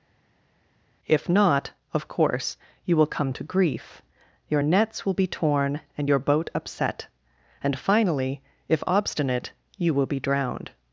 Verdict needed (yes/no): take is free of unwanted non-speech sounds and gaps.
yes